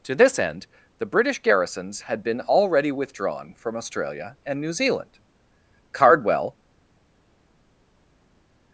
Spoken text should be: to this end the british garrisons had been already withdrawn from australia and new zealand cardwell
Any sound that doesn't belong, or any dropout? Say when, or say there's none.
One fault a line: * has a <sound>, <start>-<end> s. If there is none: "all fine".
all fine